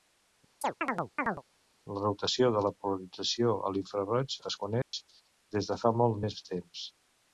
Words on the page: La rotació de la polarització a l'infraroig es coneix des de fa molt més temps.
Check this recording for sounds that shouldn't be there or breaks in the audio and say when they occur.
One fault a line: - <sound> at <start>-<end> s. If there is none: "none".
- chirp at 0.6-1.4 s
- dropout at 4.8-4.9 s